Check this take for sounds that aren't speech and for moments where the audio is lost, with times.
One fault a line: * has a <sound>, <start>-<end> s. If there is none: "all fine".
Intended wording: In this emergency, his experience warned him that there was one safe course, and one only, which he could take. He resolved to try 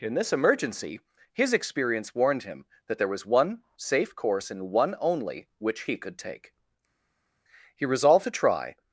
all fine